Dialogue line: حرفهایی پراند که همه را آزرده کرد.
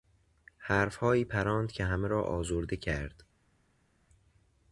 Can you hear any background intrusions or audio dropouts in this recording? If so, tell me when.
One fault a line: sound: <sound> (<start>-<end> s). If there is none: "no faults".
no faults